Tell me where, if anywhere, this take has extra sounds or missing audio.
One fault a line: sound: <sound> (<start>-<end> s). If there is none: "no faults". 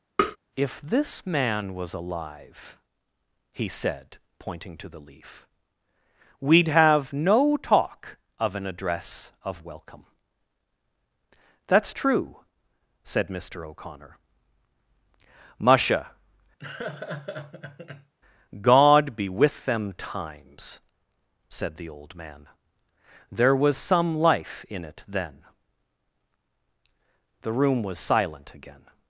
sound: tap (0.2-0.4 s)
sound: laugh (16.6-18.1 s)